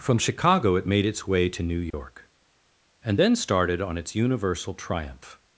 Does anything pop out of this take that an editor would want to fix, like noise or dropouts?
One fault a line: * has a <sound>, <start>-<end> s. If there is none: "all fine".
* has a dropout, 1.9-1.9 s